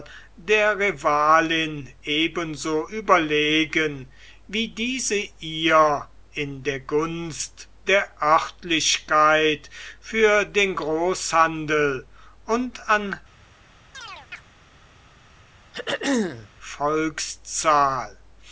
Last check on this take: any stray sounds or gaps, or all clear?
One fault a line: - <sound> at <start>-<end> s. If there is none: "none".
- chirp at 13.9-14.4 s
- throat clearing at 15.7-16.5 s